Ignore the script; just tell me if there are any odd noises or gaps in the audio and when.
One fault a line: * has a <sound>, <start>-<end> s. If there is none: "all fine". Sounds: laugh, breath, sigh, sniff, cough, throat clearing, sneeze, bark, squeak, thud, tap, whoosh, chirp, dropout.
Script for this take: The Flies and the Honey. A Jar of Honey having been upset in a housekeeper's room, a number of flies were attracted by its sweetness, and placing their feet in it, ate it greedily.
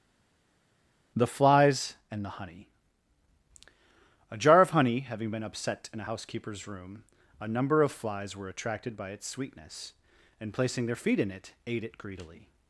all fine